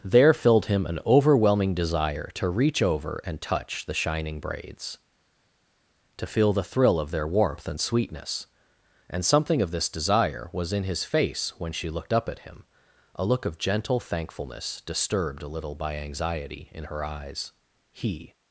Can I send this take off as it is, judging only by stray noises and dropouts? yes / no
yes